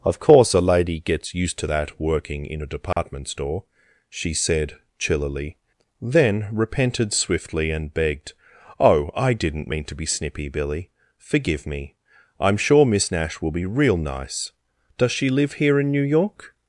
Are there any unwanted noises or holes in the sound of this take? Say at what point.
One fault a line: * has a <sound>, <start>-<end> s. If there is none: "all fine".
* has a dropout, 2.9-3.0 s